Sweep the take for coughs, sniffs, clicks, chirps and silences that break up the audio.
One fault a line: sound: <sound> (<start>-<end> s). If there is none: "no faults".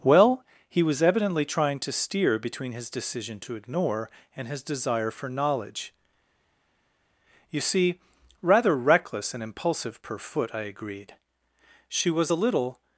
no faults